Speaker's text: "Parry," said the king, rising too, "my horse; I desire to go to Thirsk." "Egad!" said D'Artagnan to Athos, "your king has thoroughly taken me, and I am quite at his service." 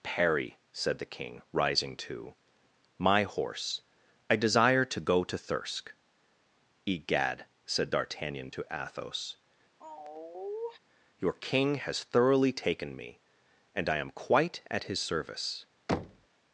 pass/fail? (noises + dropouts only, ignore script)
fail